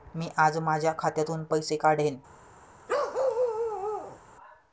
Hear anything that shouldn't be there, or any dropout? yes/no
yes